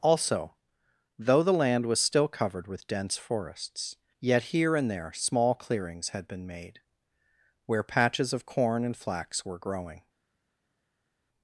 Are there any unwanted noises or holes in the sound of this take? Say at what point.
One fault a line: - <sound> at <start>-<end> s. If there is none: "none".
none